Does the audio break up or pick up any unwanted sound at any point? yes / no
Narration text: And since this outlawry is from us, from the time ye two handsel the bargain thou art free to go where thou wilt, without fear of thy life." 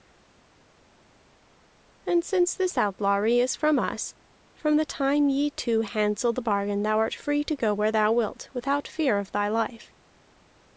no